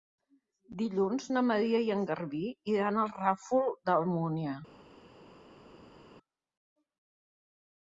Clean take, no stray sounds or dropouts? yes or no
yes